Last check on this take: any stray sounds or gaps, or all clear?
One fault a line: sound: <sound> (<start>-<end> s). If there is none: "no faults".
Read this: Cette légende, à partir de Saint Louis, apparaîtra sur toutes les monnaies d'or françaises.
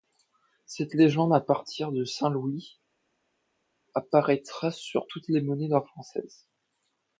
no faults